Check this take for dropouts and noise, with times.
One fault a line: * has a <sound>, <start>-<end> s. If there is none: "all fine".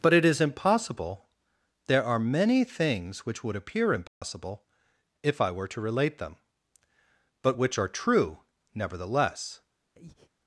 * has a dropout, 4.1-4.2 s
* has a breath, 9.9-10.3 s